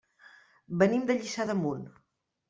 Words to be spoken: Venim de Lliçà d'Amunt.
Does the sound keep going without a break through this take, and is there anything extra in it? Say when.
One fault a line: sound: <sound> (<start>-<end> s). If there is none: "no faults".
no faults